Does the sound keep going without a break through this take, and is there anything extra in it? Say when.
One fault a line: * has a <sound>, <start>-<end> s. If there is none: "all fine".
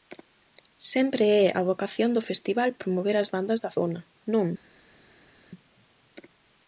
all fine